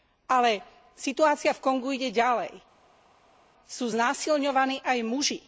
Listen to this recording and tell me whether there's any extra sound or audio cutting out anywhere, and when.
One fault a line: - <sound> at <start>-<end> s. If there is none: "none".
none